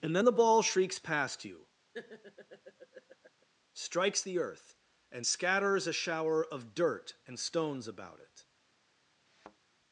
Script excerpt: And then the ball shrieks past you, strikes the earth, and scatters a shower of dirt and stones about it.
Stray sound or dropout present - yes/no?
yes